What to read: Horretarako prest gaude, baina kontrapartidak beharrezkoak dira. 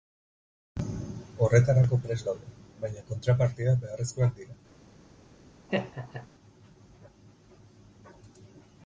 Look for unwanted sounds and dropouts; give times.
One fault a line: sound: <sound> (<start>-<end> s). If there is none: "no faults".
sound: laugh (5.7-6.3 s)